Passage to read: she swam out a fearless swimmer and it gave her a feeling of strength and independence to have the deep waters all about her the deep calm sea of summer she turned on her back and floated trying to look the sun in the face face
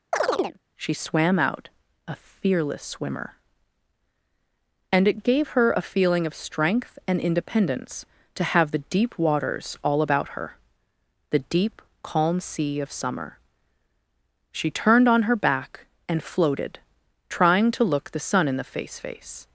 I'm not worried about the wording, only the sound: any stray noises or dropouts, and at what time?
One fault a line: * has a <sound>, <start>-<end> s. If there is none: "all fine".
* has a chirp, 0.1-0.6 s